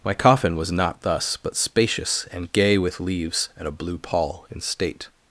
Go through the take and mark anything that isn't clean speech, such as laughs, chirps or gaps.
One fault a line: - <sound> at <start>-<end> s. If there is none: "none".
none